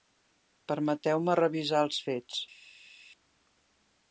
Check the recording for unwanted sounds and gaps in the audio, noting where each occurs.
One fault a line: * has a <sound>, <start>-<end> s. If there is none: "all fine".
all fine